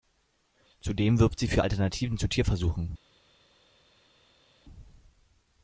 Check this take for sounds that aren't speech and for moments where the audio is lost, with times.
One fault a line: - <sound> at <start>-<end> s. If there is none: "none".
none